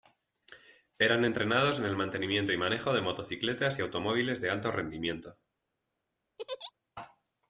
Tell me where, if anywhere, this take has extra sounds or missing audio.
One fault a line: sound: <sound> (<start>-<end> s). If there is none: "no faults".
sound: laugh (6.4-6.7 s)